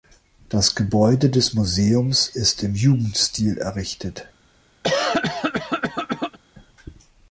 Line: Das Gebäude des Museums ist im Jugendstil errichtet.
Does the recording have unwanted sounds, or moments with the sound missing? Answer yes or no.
yes